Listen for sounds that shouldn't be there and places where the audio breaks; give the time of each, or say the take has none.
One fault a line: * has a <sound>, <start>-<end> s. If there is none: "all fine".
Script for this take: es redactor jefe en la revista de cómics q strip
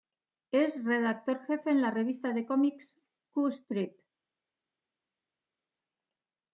all fine